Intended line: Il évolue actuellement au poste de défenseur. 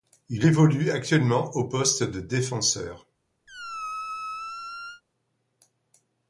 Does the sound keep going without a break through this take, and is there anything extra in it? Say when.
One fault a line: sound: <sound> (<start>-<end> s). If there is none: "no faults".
sound: squeak (3.5-5.0 s)